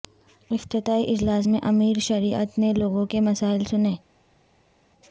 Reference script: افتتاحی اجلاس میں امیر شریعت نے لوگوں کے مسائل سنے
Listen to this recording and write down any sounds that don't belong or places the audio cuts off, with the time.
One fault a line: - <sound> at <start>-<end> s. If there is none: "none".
none